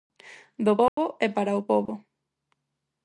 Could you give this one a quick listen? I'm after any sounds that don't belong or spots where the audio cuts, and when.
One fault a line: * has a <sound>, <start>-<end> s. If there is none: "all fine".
* has a dropout, 0.9-1.0 s
* has a dropout, 1.9-1.9 s